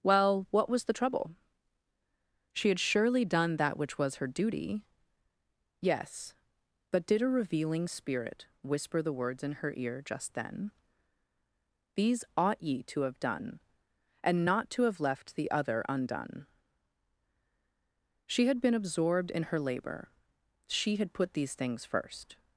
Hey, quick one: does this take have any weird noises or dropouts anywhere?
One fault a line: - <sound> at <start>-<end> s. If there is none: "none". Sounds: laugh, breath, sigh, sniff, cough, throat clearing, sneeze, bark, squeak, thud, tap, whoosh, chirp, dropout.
none